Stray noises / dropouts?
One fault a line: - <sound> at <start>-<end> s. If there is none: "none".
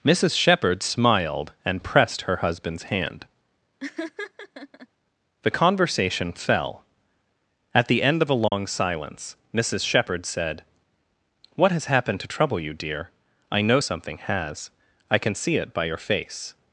- laugh at 3.8-4.9 s
- dropout at 8.5-8.5 s